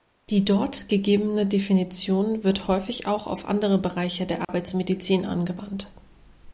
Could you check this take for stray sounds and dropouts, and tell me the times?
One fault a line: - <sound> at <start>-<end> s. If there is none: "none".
- dropout at 4.4-4.5 s